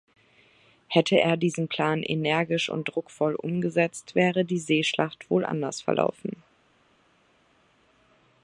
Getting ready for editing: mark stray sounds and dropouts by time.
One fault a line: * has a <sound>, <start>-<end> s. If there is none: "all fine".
all fine